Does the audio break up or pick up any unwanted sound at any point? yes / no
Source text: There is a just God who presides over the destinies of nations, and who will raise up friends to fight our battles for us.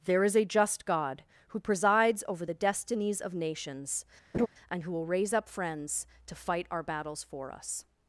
yes